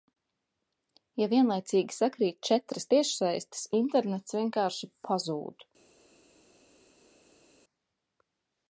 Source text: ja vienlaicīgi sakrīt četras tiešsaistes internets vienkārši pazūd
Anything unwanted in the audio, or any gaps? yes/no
no